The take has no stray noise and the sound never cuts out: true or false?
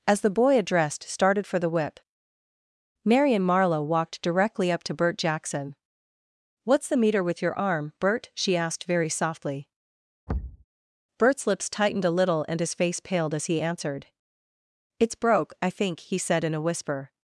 false